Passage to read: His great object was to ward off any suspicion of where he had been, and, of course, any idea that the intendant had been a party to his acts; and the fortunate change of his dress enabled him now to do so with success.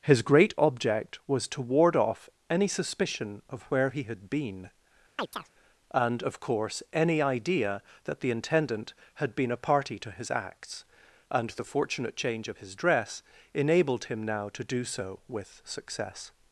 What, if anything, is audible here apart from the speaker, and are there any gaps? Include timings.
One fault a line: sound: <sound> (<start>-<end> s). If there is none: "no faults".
sound: chirp (5.2-5.5 s)